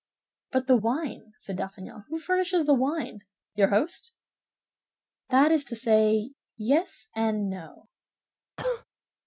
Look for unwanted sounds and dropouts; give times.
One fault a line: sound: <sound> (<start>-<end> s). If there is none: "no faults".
sound: cough (8.6-8.8 s)